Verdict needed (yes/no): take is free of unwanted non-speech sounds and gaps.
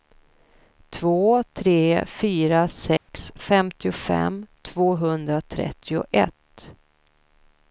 no